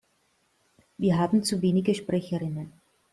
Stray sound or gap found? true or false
false